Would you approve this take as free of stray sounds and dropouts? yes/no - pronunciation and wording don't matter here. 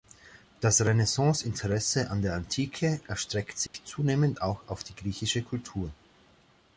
no